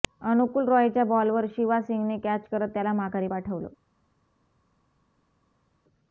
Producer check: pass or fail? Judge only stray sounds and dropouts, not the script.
pass